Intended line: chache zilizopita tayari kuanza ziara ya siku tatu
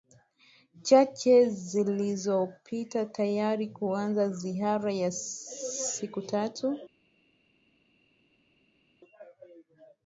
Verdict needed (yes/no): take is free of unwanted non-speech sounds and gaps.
yes